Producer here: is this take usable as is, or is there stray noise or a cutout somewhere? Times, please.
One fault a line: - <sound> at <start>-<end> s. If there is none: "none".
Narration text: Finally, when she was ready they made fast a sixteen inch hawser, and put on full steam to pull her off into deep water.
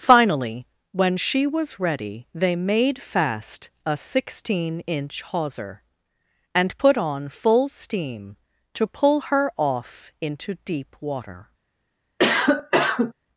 - cough at 12.2-13.1 s